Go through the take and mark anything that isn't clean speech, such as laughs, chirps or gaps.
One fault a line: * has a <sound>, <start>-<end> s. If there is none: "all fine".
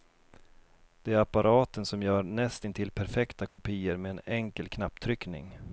* has a dropout, 3.5-3.6 s